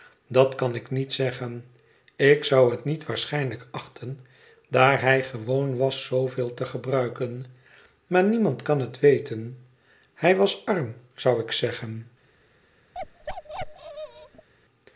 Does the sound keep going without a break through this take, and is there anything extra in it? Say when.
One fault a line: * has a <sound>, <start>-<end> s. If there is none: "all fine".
* has a bark, 12.9-14.5 s